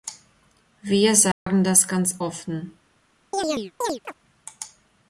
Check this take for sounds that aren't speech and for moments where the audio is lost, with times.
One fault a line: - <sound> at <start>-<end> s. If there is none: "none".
- dropout at 1.3-1.5 s
- chirp at 3.3-4.1 s